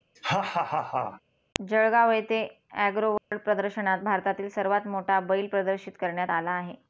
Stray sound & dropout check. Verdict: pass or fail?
fail